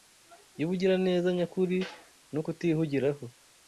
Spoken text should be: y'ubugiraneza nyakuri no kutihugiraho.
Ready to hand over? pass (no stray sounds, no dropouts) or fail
pass